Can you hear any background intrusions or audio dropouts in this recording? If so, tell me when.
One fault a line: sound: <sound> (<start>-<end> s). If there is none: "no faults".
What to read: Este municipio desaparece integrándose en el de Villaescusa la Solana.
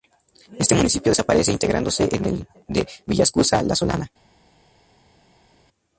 no faults